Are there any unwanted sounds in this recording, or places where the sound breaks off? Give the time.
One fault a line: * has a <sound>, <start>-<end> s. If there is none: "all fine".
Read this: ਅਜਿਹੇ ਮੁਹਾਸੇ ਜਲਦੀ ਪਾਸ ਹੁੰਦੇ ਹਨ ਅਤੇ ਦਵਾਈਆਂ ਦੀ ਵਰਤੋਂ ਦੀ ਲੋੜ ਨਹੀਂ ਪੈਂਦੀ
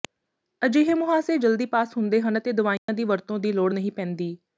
* has a dropout, 2.8-2.9 s